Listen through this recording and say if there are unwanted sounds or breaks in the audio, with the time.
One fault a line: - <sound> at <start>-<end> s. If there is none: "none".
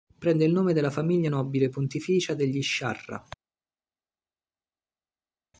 none